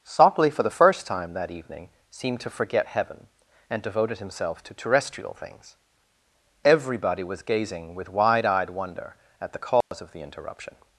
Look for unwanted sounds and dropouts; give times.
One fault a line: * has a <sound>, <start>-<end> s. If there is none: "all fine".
* has a dropout, 9.8-9.9 s